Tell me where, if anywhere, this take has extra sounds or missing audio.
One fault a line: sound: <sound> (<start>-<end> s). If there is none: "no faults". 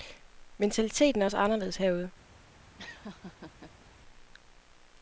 sound: laugh (2.8-3.9 s)